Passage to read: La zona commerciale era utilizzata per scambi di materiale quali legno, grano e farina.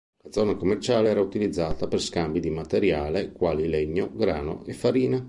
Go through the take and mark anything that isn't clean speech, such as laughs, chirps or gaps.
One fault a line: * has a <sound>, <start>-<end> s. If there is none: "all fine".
all fine